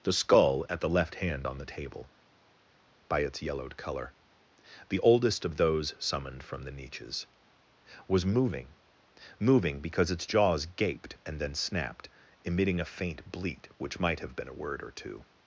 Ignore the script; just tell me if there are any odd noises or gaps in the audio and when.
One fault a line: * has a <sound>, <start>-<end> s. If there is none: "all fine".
all fine